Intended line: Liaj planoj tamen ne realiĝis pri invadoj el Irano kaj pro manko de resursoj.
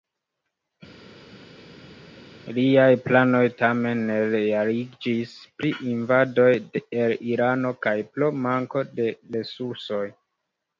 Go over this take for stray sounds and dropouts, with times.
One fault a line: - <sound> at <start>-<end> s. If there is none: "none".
none